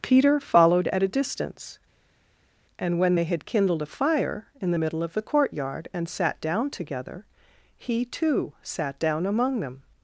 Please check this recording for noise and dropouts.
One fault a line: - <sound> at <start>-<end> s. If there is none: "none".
none